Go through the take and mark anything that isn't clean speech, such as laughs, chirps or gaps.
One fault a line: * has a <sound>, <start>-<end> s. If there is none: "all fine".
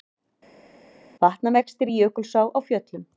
all fine